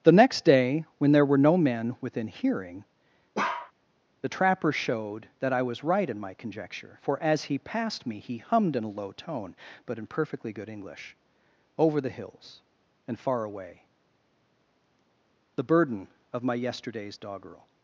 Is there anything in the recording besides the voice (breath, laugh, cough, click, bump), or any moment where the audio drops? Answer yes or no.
yes